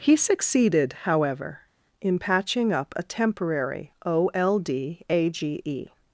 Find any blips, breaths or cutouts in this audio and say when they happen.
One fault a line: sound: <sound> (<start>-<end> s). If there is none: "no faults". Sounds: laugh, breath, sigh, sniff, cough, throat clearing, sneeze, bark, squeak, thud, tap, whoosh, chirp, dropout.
no faults